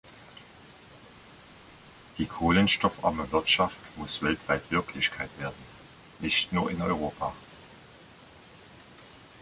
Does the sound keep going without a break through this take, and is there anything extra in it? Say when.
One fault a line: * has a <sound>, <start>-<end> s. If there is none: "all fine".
all fine